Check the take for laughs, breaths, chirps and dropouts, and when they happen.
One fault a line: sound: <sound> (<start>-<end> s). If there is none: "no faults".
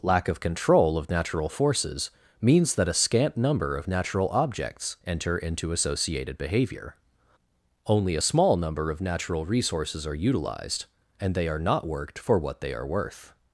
no faults